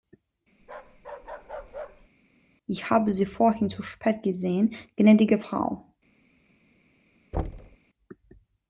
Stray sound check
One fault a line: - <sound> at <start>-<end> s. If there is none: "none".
- bark at 0.6-2.1 s
- thud at 7.3-7.8 s